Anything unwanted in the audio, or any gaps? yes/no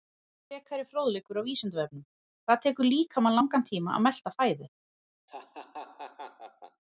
yes